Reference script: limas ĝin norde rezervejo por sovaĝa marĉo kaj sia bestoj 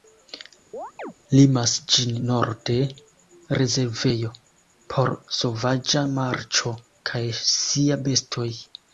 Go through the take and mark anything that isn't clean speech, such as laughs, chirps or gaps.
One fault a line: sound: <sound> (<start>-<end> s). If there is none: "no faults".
sound: chirp (0.7-1.1 s)